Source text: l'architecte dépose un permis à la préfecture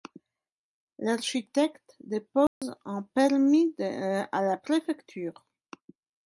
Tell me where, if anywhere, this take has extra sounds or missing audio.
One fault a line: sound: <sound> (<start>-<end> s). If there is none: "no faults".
sound: dropout (2.5-2.6 s)